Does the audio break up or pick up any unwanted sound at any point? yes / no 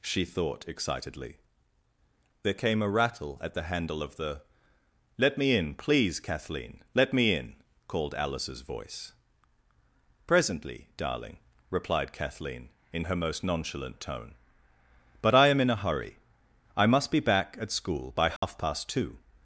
yes